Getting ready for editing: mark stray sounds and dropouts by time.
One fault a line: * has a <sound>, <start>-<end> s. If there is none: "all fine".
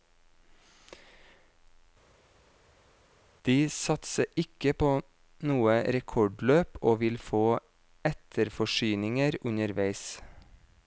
all fine